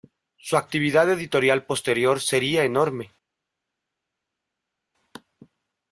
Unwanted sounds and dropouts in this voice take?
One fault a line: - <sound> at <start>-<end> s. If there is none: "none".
none